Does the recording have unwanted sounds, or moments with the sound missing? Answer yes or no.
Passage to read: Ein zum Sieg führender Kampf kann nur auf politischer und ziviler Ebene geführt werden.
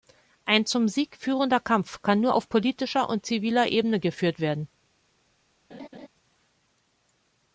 yes